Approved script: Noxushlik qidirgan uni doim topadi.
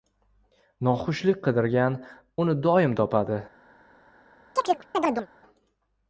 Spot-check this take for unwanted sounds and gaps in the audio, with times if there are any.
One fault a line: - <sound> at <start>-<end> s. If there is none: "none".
- chirp at 4.6-5.3 s